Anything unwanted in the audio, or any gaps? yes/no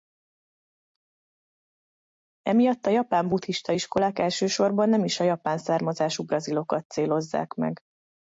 no